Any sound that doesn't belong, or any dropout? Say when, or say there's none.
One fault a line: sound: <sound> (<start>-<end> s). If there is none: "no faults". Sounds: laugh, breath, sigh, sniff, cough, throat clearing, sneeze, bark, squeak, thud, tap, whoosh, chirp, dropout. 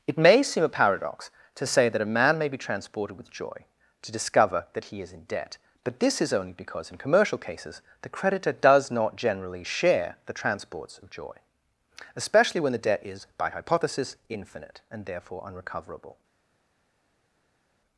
no faults